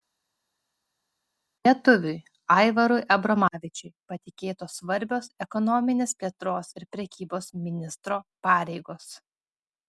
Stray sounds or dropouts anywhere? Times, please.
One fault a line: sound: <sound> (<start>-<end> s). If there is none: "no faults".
no faults